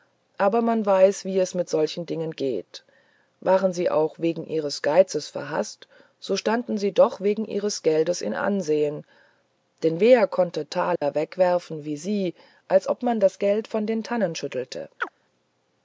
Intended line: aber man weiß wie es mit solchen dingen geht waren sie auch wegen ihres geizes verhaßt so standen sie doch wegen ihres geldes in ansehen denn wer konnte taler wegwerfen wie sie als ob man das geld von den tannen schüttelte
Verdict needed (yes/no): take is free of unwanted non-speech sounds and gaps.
no